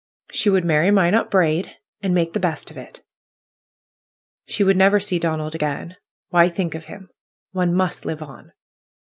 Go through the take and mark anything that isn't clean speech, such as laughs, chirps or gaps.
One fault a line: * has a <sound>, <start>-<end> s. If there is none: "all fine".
all fine